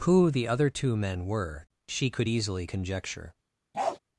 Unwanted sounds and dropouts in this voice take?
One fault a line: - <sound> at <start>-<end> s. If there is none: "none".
- bark at 3.7-4.0 s